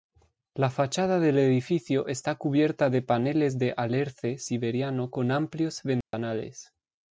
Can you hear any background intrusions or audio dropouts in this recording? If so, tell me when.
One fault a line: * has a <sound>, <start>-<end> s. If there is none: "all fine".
* has a dropout, 6.0-6.1 s